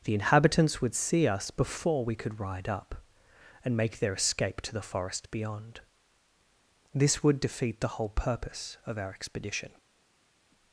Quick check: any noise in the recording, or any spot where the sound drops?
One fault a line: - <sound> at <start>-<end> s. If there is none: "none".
none